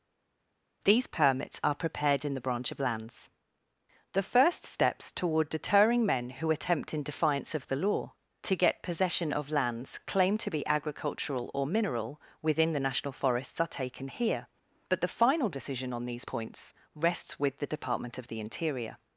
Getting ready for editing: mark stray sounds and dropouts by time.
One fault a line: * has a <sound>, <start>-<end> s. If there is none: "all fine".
all fine